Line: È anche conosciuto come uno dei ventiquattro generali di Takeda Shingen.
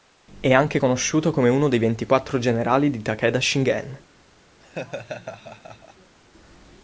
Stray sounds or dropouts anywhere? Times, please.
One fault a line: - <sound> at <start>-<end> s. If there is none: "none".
- laugh at 4.6-6.1 s